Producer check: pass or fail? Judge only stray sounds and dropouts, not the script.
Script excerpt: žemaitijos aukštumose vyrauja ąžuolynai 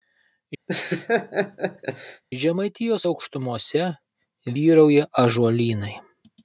fail